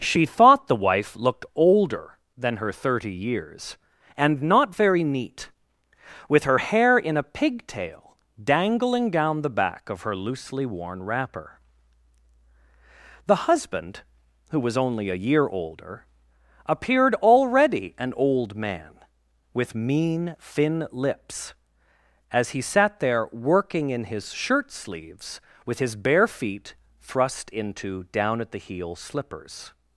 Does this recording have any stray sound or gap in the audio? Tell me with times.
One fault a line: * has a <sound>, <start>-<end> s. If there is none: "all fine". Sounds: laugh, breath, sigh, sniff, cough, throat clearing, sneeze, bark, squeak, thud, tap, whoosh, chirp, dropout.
all fine